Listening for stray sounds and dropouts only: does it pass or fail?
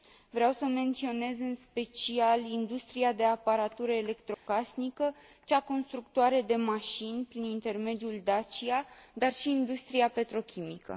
fail